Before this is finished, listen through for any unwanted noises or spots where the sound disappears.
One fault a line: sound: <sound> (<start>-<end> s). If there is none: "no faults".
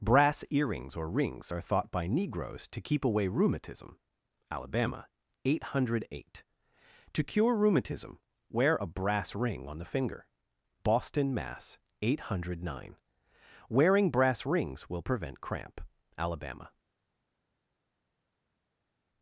no faults